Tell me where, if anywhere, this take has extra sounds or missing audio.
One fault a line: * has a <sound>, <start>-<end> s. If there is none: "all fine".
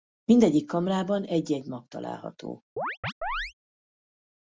* has a chirp, 2.8-3.5 s